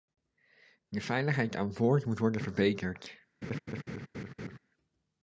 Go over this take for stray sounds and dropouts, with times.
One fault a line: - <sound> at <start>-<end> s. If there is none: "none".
- laugh at 3.4-4.6 s